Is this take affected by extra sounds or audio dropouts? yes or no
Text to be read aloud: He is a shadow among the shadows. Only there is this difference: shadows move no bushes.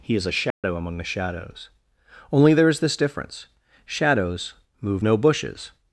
yes